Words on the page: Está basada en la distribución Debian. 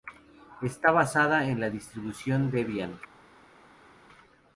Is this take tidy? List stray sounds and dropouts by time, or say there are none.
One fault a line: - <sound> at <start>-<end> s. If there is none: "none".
none